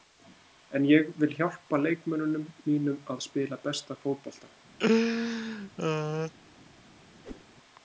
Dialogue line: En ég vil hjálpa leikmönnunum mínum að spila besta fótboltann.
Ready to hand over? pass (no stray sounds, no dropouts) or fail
fail